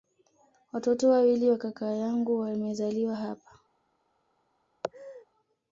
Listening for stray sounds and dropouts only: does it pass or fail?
fail